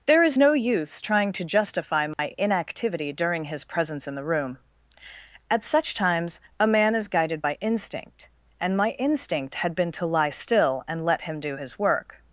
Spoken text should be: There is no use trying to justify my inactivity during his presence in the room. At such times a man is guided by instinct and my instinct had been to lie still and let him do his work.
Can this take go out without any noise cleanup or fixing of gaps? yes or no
no